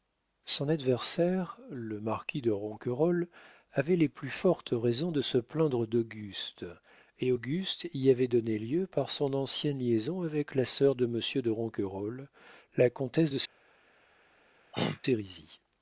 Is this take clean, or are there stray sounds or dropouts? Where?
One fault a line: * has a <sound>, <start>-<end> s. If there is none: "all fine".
* has a throat clearing, 14.7-15.0 s